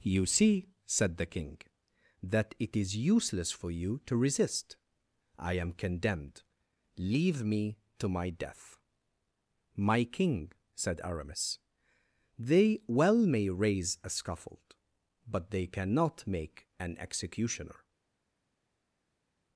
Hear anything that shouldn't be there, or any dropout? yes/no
no